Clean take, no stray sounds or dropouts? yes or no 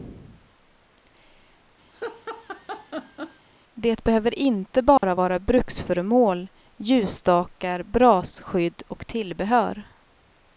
no